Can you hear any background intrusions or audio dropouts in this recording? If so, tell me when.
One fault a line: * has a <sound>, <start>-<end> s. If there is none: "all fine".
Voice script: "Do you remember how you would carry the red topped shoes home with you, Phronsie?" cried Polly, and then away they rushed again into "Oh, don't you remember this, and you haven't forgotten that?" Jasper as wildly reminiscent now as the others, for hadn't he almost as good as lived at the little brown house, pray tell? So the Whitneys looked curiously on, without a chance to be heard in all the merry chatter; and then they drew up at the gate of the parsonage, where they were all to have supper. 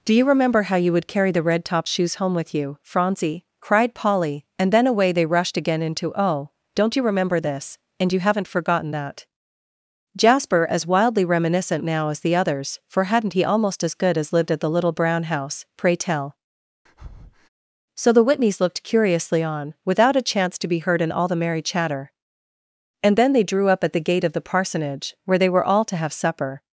* has a breath, 16.9-17.5 s